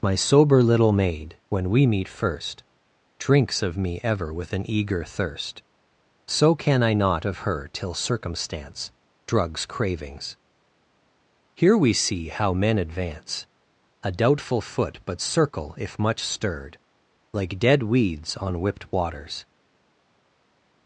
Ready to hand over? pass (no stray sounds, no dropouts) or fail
pass